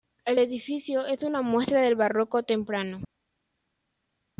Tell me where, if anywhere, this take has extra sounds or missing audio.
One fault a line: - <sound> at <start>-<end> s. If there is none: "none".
none